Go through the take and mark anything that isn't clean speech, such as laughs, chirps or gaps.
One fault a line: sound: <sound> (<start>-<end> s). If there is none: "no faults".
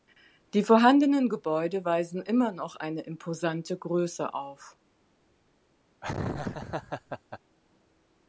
sound: laugh (6.0-7.4 s)